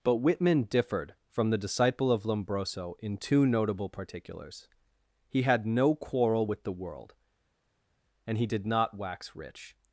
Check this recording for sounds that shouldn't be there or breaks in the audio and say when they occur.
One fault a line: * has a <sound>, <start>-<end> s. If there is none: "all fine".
all fine